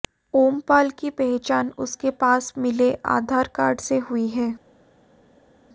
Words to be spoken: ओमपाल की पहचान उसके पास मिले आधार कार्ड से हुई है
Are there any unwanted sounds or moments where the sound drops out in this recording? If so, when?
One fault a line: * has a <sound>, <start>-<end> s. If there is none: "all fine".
all fine